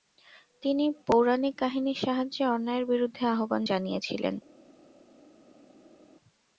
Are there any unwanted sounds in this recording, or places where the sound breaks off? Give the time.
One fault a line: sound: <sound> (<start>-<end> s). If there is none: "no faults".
no faults